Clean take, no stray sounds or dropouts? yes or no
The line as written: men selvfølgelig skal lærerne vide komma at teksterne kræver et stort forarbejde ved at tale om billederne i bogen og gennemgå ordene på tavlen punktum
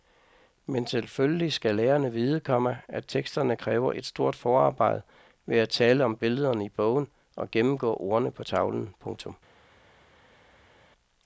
yes